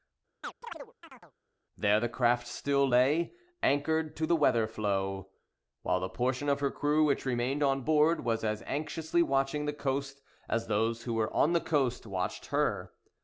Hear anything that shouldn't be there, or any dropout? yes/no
yes